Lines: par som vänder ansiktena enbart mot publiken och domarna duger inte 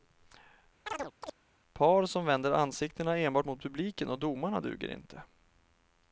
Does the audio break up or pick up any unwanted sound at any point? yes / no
yes